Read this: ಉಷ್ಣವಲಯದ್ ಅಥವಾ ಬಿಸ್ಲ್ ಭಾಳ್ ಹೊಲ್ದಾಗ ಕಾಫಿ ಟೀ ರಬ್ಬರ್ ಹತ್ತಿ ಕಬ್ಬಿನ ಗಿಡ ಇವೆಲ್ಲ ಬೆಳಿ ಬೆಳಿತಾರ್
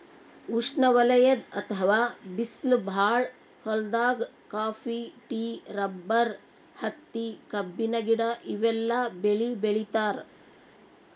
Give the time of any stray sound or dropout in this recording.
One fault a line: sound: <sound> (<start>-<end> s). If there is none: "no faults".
no faults